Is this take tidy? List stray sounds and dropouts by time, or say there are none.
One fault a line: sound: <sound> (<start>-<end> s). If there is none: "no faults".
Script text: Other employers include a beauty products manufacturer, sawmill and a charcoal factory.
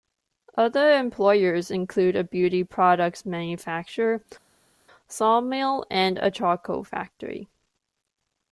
no faults